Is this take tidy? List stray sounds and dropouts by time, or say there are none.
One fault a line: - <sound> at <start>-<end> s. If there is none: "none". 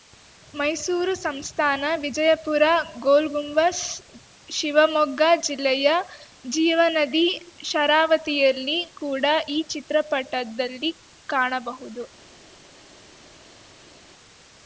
none